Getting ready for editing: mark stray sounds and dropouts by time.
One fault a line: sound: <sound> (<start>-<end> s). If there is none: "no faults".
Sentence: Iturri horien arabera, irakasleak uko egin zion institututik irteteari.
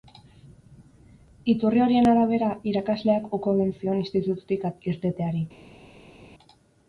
no faults